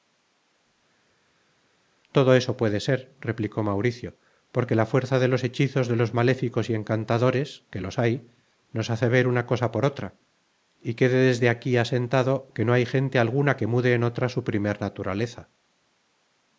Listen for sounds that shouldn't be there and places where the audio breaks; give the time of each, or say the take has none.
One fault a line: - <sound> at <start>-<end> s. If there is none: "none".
none